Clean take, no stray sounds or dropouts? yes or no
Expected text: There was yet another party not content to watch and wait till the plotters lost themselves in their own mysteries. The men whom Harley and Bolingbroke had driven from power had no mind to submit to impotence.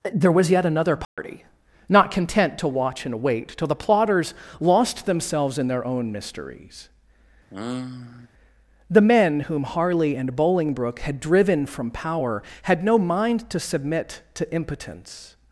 no